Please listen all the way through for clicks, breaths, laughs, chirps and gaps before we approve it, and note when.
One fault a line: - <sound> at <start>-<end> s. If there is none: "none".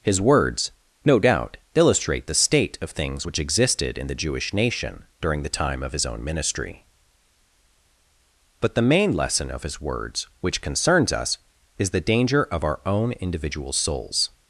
none